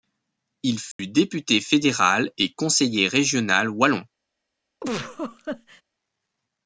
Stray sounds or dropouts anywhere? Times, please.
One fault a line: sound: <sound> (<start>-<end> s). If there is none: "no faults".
sound: dropout (0.9-1.0 s)
sound: laugh (4.8-5.8 s)